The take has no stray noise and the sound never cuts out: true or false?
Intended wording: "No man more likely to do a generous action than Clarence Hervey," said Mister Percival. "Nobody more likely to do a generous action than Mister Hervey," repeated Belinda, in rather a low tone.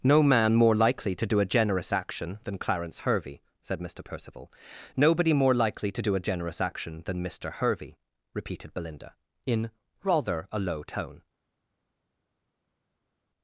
true